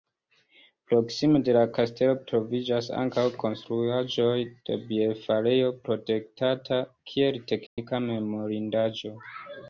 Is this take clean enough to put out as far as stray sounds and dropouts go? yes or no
no